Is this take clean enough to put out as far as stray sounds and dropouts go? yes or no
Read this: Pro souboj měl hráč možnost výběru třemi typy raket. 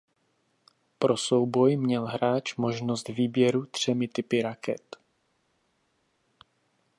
yes